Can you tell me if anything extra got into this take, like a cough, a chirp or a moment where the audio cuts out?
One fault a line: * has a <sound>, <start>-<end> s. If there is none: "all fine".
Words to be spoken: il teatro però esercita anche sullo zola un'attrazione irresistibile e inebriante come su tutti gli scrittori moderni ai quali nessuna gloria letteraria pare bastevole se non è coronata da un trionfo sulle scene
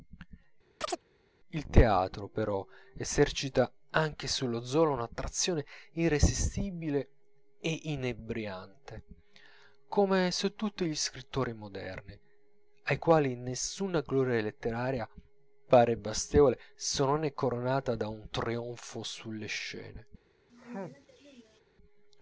* has a chirp, 0.8-1.0 s
* has a sneeze, 20.5-21.6 s